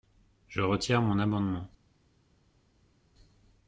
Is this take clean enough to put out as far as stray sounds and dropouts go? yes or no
yes